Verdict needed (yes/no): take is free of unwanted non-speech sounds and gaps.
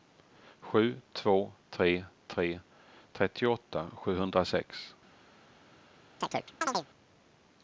no